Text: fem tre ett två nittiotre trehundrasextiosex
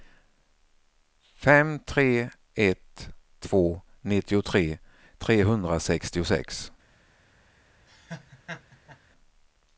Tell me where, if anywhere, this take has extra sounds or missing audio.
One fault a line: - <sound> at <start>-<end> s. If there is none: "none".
- laugh at 7.9-9.0 s